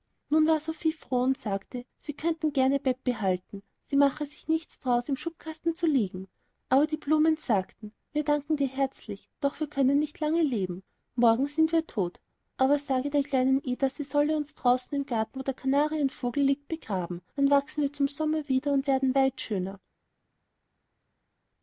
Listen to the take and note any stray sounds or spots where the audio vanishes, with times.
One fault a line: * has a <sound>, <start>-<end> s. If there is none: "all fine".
all fine